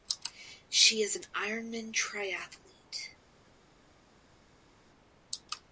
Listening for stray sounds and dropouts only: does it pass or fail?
pass